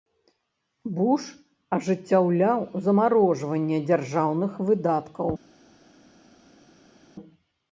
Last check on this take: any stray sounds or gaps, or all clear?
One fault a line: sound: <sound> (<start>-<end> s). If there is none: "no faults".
no faults